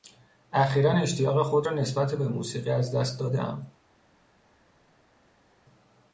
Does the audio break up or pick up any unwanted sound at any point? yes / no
no